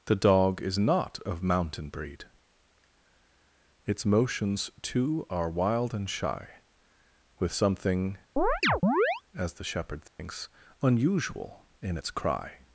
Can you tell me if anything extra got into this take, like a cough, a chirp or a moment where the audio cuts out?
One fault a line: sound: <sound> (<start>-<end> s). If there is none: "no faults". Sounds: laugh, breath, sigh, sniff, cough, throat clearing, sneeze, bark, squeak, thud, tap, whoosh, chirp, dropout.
sound: chirp (8.4-9.2 s)
sound: dropout (10.1-10.2 s)